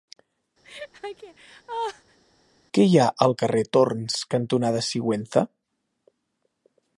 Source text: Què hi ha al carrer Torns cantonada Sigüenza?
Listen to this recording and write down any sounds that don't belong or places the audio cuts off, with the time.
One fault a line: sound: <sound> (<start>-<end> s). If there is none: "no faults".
sound: laugh (0.6-2.2 s)